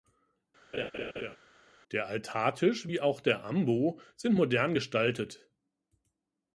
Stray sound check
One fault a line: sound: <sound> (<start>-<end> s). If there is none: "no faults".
sound: laugh (0.7-1.4 s)